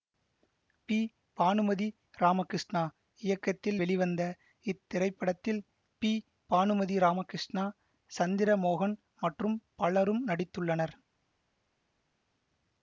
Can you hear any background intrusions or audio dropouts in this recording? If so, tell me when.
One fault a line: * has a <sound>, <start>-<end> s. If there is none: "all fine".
all fine